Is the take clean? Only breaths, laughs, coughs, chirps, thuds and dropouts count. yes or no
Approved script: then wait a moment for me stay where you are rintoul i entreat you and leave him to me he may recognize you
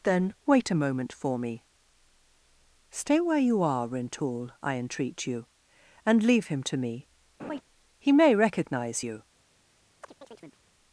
no